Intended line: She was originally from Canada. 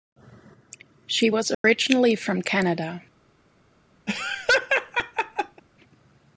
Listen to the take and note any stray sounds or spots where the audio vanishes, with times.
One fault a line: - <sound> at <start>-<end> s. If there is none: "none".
- dropout at 1.5-1.6 s
- laugh at 4.1-5.6 s